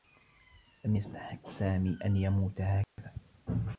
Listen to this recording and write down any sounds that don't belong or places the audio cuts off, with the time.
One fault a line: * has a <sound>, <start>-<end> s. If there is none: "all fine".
* has a dropout, 2.8-3.0 s